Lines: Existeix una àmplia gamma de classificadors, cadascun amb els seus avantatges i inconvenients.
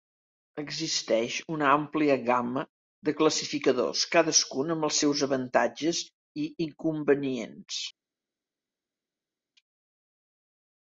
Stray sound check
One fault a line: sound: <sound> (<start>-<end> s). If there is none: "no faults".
no faults